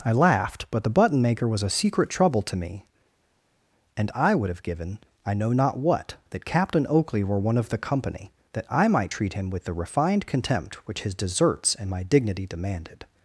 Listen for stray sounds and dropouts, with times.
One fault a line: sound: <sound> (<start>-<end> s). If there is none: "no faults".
no faults